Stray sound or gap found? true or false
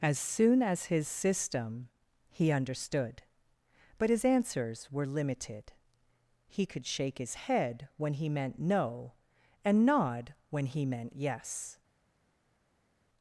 false